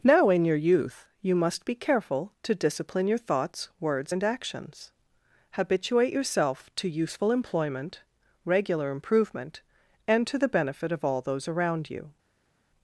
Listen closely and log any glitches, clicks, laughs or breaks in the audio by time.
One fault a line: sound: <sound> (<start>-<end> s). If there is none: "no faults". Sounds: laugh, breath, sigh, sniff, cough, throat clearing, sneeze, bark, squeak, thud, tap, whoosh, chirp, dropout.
no faults